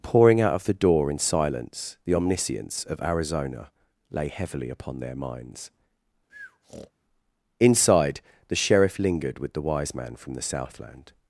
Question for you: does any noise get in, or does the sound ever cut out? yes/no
yes